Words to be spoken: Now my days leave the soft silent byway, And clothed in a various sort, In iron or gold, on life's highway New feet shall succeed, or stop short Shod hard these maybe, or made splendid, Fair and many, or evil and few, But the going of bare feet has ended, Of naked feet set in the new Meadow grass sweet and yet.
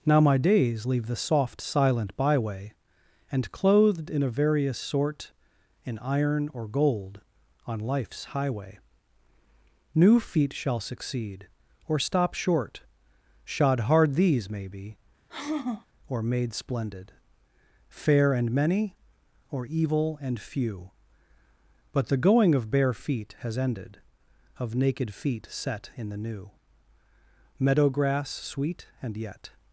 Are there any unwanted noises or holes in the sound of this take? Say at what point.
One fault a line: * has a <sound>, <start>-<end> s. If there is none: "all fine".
* has a sigh, 15.3-15.9 s